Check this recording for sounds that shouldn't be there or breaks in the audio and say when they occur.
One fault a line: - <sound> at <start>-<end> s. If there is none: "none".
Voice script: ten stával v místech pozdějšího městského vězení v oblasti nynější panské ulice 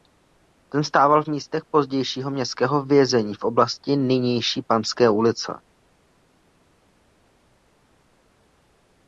none